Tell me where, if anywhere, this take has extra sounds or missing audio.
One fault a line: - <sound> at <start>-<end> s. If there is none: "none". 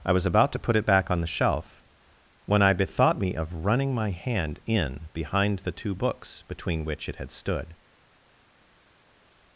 none